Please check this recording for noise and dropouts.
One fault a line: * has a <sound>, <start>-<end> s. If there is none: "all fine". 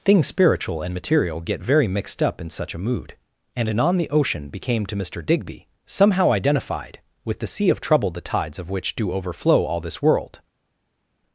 all fine